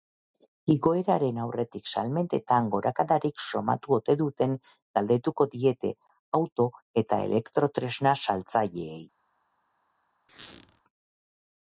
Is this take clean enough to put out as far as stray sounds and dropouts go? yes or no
no